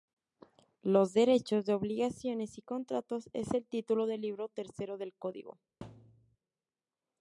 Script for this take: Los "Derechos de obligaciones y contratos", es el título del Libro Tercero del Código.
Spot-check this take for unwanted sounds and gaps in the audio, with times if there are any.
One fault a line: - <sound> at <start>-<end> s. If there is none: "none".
- thud at 5.8-6.4 s